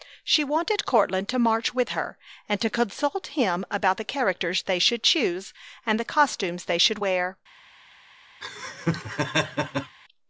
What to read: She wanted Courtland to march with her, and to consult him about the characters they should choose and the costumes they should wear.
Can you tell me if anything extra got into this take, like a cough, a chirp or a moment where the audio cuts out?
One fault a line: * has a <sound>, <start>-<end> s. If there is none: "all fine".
* has a laugh, 8.4-10.0 s